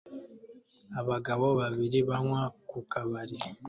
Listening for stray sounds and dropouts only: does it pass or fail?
pass